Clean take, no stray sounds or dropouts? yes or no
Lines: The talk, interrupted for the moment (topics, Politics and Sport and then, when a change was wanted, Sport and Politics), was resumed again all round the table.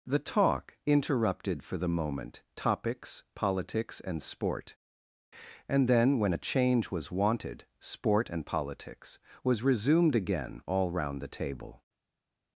yes